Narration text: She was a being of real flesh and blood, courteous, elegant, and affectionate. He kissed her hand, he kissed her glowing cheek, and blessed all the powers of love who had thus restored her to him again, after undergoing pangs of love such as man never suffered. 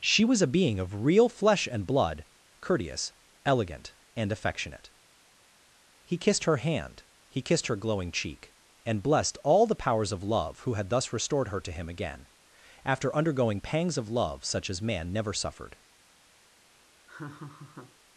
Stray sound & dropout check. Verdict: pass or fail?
fail